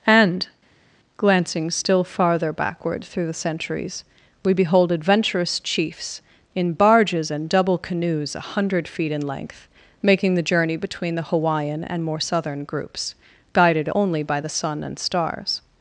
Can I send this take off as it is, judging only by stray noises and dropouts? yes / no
yes